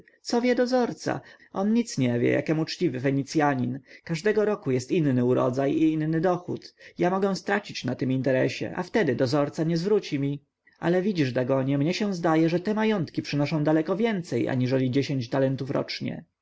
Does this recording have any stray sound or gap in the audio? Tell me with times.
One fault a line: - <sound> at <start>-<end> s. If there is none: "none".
none